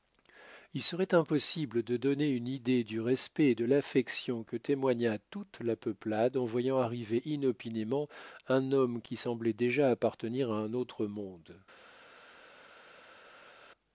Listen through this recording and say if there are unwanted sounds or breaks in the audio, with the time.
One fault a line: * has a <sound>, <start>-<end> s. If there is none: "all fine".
all fine